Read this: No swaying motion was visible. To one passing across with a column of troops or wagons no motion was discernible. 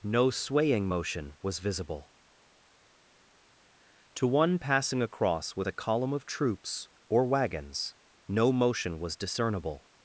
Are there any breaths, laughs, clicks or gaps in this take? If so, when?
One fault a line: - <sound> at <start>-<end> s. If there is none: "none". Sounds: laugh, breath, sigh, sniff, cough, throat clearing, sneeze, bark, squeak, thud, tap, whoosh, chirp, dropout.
none